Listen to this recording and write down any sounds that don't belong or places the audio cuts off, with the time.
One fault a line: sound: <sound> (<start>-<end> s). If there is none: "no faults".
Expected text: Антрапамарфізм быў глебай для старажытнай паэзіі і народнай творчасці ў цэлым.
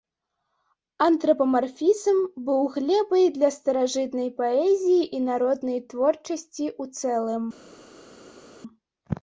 no faults